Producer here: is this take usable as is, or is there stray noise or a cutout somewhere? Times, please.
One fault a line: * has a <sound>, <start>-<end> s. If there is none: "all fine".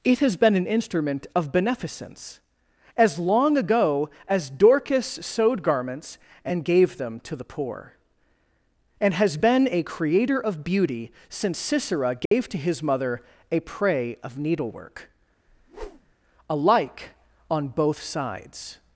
* has a dropout, 12.3-12.3 s
* has a whoosh, 15.5-16.1 s